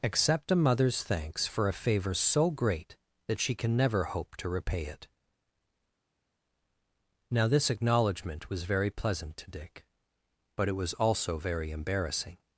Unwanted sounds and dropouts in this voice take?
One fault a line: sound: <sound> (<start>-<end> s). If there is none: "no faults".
no faults